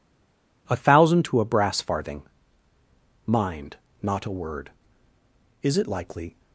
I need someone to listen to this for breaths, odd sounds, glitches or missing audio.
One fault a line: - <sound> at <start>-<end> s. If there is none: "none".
none